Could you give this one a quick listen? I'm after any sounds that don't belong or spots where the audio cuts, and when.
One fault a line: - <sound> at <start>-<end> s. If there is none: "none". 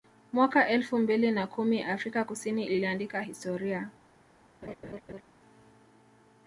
- laugh at 4.6-5.2 s